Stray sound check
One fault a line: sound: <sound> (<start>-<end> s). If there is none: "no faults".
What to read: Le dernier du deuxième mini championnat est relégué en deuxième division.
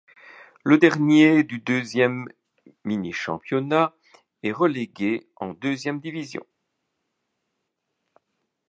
no faults